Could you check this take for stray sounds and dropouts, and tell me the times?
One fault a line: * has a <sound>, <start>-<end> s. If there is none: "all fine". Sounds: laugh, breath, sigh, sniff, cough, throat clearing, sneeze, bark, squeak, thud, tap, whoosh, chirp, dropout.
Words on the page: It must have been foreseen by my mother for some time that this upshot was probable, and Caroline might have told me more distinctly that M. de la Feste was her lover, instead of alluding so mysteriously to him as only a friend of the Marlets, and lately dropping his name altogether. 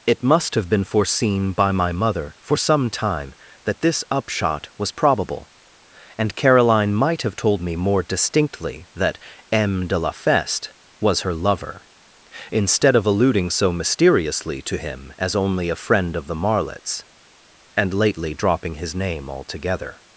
all fine